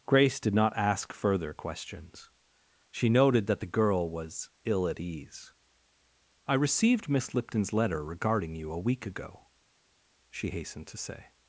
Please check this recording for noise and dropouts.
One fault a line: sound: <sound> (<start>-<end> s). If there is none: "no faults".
no faults